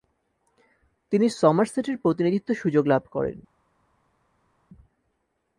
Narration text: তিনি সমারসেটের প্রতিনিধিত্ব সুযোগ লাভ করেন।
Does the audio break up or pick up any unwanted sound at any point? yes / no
no